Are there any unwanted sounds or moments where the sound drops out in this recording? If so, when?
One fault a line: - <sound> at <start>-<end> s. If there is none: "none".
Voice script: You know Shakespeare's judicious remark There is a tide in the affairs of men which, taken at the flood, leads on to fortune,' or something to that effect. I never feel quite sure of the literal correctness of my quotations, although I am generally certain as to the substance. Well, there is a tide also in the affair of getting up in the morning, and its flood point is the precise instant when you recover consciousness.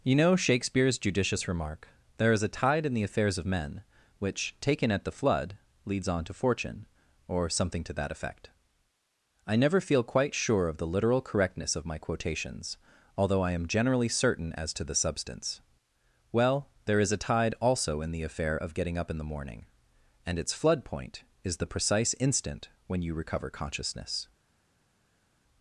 none